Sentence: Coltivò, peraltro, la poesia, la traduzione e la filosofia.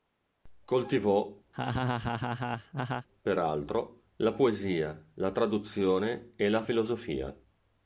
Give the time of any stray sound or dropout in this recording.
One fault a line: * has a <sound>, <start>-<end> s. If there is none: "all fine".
* has a laugh, 1.5-3.1 s